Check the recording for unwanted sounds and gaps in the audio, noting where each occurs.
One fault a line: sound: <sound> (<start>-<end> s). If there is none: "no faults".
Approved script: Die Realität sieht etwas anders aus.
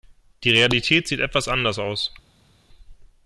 no faults